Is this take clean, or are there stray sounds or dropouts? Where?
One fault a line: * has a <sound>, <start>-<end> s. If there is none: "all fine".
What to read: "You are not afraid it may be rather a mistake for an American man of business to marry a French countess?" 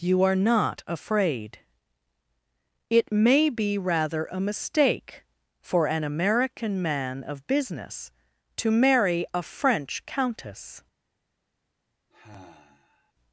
* has a sigh, 12.1-13.1 s